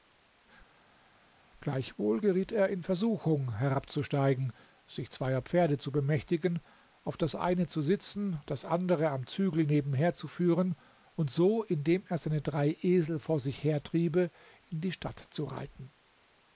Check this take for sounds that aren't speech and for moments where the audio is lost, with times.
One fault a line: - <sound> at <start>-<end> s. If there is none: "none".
none